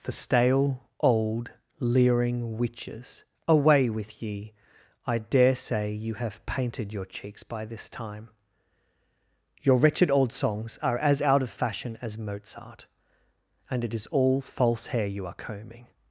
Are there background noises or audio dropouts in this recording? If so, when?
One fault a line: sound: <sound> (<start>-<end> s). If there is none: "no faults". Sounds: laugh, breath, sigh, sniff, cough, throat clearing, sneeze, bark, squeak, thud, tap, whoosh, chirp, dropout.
no faults